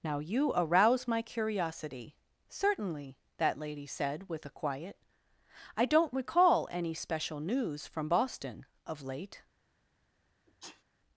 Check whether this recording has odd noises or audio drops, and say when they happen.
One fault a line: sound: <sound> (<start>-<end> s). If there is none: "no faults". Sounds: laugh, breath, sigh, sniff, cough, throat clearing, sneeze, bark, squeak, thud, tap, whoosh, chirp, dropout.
sound: sneeze (10.5-10.8 s)